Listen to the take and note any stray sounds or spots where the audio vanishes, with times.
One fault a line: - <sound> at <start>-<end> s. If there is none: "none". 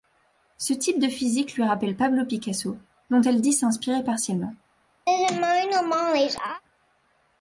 - laugh at 5.1-6.6 s